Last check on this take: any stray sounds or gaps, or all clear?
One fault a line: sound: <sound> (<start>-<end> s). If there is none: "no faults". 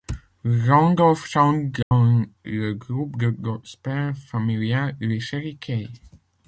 sound: dropout (1.8-1.9 s)